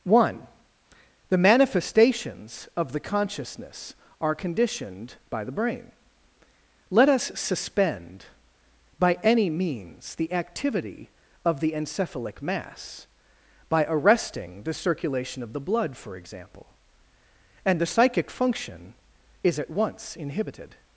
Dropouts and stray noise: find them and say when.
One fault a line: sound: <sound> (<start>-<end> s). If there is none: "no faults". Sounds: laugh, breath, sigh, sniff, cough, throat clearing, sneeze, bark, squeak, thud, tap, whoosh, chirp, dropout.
no faults